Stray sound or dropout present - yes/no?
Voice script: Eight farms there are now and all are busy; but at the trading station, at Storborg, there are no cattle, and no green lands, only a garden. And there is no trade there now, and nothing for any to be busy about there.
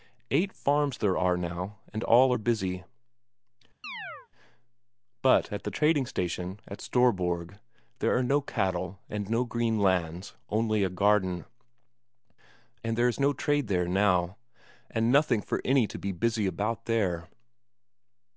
yes